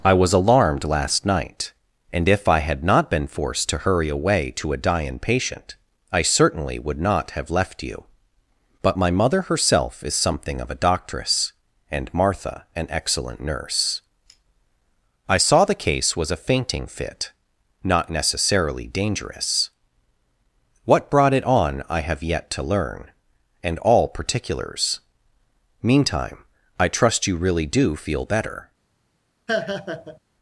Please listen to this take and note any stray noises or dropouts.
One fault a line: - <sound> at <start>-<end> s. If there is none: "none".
- laugh at 29.5-30.2 s